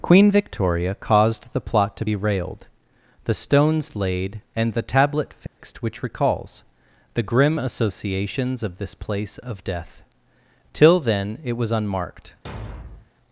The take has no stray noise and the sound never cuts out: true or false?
false